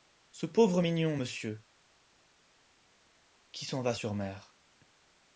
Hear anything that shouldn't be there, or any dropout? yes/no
no